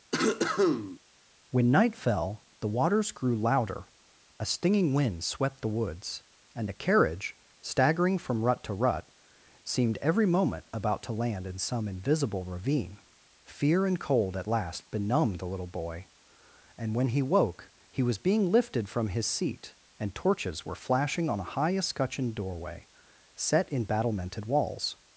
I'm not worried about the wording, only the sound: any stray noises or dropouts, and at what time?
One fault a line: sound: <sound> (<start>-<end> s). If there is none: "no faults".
sound: cough (0.1-1.0 s)